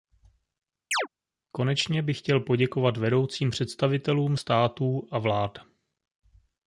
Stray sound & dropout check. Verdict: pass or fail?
fail